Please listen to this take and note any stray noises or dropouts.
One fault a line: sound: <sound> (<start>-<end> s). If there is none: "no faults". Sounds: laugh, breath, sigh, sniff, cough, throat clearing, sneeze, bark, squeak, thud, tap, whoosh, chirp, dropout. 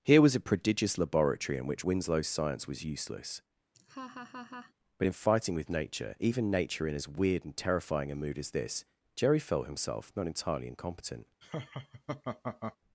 sound: laugh (3.7-4.7 s)
sound: laugh (11.4-12.8 s)